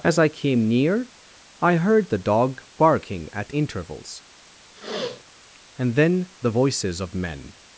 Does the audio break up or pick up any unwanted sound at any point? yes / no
yes